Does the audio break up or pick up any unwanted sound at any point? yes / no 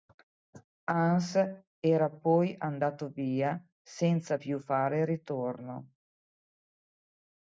no